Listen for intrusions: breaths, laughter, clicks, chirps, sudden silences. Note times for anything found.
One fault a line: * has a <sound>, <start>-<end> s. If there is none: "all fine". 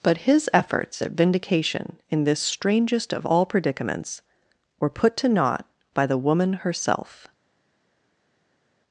all fine